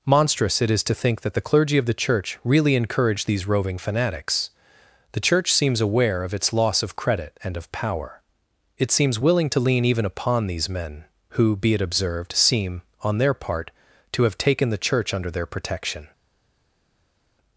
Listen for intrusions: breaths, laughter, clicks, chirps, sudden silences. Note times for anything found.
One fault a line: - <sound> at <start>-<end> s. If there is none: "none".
none